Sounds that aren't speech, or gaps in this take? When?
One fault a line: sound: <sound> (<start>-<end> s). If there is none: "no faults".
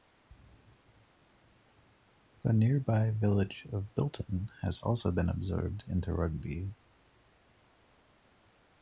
no faults